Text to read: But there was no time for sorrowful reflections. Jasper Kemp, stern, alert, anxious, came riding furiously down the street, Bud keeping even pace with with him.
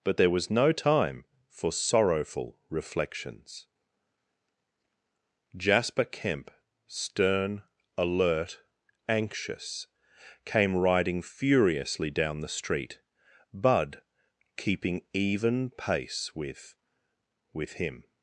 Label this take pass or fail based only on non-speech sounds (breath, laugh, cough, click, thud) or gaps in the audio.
pass